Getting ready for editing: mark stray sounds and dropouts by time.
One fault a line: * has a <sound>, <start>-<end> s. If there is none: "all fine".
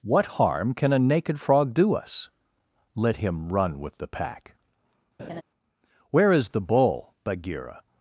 * has a laugh, 5.2-5.4 s